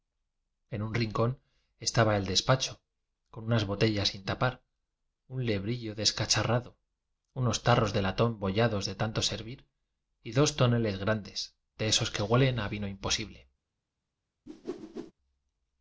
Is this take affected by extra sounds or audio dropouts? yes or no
yes